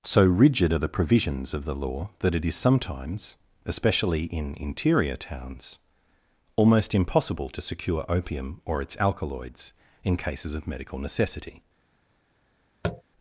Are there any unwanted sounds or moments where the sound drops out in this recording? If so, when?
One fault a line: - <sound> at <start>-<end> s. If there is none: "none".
- tap at 12.8-13.0 s